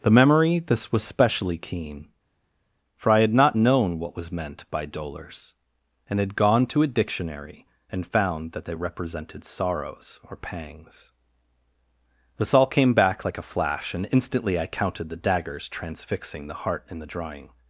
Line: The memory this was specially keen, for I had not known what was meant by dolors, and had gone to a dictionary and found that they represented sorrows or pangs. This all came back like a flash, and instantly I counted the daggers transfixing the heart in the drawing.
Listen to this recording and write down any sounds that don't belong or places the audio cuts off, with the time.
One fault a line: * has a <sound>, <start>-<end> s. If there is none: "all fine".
all fine